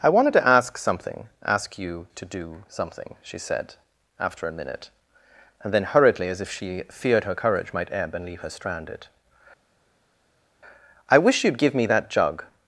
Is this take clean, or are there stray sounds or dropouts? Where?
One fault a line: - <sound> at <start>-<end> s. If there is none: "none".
none